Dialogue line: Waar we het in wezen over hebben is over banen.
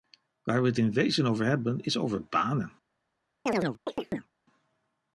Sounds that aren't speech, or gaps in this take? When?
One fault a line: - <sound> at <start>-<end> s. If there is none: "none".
- chirp at 3.5-4.3 s